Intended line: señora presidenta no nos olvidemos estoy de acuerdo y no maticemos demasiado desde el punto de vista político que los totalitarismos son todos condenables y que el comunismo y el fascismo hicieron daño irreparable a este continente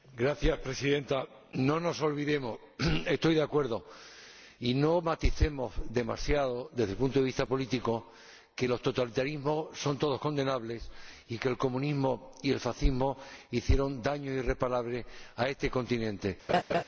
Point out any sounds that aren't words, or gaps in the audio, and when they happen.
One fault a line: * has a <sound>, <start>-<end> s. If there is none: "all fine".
* has a laugh, 16.5-16.8 s